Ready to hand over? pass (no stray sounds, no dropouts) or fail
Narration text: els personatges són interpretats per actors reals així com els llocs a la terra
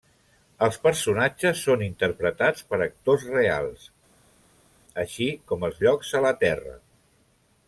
pass